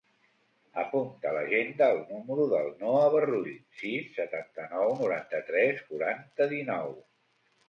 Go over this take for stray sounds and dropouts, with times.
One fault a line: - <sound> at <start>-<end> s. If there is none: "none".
none